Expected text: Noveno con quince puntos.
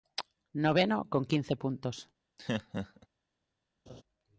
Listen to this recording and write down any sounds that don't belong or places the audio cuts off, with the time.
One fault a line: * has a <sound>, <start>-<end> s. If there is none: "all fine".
* has a laugh, 2.4-3.1 s
* has a laugh, 3.9-4.0 s